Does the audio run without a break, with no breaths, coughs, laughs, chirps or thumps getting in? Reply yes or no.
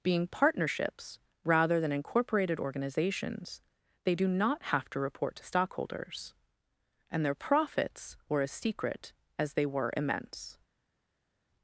yes